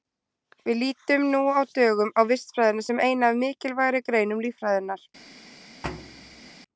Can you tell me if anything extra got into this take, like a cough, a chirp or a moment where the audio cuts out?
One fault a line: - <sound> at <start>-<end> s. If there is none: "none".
- thud at 5.8-6.5 s